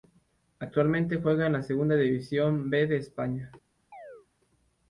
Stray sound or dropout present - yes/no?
yes